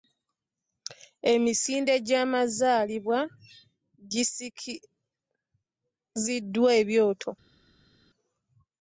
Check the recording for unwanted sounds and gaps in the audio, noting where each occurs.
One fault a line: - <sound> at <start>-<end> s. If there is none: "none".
none